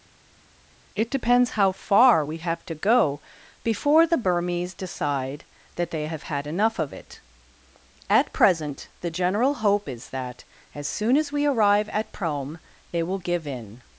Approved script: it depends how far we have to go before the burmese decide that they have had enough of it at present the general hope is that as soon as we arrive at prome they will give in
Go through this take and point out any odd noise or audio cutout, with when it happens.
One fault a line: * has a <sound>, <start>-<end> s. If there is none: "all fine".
all fine